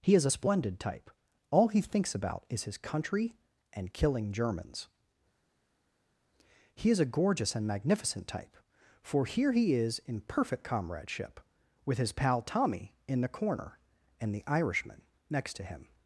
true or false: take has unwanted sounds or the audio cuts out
false